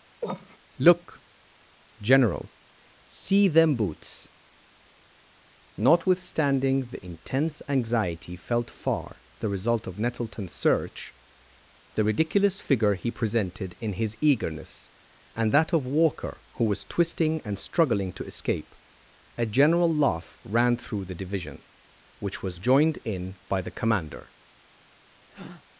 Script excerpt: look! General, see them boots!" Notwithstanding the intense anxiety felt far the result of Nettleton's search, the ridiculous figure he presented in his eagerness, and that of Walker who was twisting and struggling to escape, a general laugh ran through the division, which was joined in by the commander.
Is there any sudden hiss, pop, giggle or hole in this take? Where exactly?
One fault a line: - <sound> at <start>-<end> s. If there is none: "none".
- cough at 0.2-0.6 s
- breath at 25.3-25.6 s